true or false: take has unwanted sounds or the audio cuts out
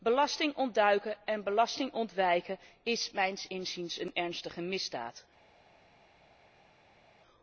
false